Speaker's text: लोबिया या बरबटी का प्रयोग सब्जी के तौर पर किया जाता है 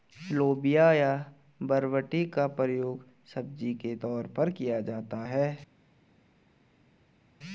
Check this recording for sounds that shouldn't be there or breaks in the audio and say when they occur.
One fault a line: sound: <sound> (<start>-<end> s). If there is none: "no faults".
no faults